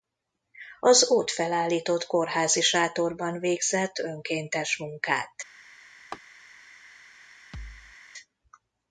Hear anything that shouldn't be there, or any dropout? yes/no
yes